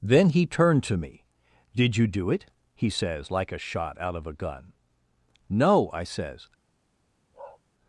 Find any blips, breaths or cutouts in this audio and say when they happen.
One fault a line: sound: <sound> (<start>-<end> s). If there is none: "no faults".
sound: bark (7.3-7.6 s)